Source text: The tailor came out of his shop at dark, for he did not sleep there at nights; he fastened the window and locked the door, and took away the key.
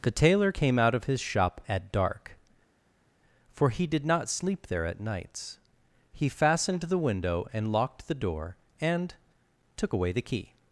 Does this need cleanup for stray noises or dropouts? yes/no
no